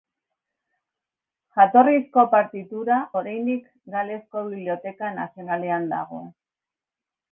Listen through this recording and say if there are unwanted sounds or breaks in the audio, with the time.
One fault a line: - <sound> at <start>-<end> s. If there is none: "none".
none